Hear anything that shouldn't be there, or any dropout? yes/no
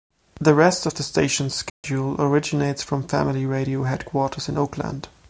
yes